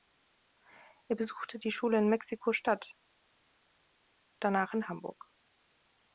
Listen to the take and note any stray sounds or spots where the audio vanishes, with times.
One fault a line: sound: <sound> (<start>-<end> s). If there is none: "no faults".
no faults